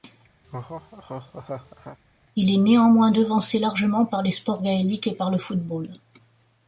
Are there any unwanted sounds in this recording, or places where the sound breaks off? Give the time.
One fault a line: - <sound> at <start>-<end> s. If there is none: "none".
- laugh at 0.4-2.0 s